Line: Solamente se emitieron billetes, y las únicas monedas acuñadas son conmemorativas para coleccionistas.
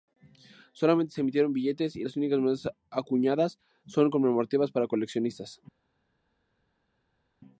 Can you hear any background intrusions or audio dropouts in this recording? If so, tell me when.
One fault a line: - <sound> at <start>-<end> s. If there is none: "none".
none